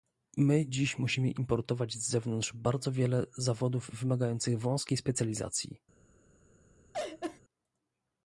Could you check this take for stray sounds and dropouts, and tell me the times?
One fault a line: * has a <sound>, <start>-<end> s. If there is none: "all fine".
* has a laugh, 6.9-7.4 s